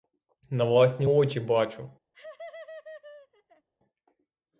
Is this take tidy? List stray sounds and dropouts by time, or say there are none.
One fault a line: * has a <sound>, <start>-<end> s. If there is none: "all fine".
* has a laugh, 2.1-3.7 s